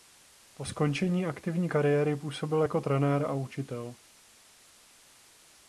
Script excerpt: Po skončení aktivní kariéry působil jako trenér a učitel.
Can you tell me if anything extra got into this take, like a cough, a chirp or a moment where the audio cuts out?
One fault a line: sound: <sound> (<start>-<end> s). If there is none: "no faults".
no faults